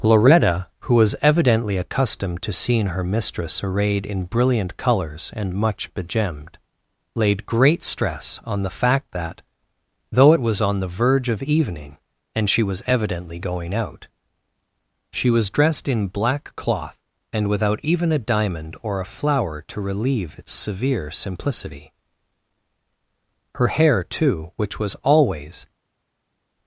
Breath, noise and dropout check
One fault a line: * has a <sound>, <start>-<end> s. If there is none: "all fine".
all fine